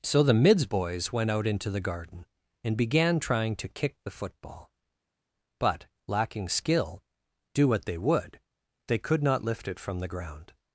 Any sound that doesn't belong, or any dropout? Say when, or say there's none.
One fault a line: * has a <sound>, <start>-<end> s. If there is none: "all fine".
all fine